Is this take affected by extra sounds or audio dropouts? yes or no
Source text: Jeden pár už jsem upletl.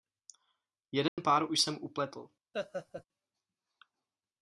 yes